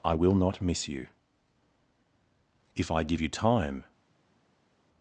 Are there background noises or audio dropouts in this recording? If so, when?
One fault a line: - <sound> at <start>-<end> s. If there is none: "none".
none